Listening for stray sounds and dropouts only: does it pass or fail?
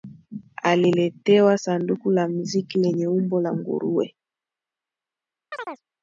fail